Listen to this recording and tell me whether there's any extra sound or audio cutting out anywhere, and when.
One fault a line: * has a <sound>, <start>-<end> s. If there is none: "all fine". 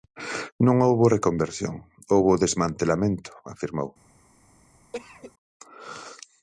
* has a cough, 4.9-5.3 s